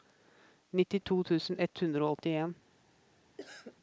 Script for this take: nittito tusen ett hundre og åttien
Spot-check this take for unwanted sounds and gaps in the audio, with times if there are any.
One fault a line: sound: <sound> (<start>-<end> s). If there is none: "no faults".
sound: cough (3.4-3.8 s)